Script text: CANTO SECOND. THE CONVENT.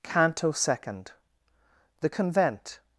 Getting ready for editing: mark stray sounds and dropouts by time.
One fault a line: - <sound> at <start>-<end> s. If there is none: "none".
none